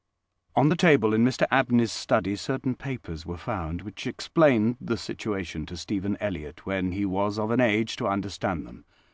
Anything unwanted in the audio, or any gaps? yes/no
no